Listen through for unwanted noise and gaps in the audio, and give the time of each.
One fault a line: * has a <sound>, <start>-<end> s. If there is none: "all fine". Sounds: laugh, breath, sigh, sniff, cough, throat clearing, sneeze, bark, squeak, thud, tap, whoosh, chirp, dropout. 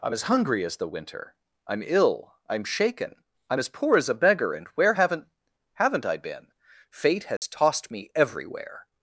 * has a dropout, 7.4-7.4 s